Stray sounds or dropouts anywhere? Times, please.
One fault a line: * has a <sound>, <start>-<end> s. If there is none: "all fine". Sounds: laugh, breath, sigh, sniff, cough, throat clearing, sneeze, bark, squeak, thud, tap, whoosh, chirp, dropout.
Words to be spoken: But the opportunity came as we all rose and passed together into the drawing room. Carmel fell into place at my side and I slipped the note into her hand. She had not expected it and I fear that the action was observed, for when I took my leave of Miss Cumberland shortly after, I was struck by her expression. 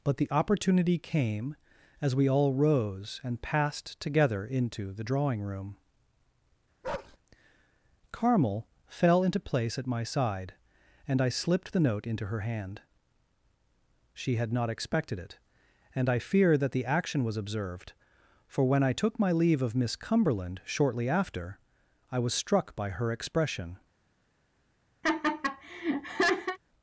* has a bark, 6.8-7.2 s
* has a laugh, 25.0-26.6 s